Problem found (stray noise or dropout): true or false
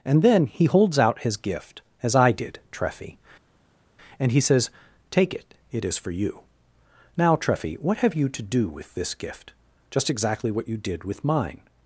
false